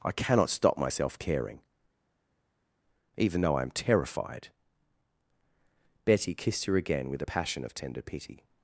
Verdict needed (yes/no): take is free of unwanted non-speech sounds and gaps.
yes